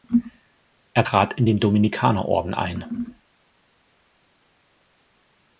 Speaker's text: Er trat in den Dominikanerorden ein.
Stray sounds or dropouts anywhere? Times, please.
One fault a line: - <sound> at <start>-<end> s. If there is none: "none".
none